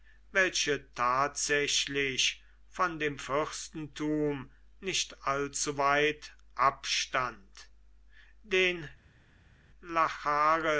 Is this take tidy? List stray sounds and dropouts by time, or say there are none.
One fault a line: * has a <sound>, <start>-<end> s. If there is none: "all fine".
all fine